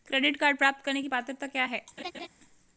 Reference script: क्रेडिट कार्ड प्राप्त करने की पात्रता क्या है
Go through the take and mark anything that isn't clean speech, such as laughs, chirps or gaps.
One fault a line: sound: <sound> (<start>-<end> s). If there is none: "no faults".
sound: laugh (2.0-2.3 s)